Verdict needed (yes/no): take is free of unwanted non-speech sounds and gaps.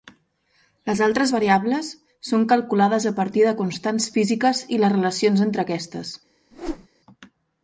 no